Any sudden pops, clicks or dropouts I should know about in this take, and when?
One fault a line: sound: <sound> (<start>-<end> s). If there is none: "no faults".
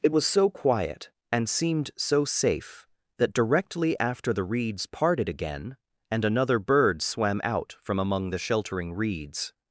no faults